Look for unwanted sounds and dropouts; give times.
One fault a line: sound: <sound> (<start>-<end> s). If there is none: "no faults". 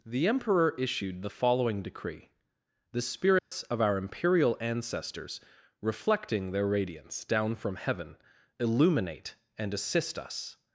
sound: dropout (3.4-3.5 s)